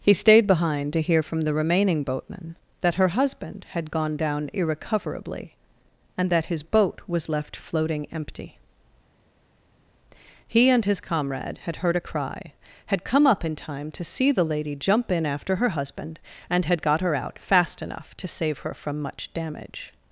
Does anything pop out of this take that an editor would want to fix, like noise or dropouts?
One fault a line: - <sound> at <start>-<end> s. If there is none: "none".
none